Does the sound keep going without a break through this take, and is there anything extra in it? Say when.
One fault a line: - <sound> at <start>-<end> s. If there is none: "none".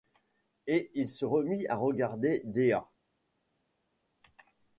none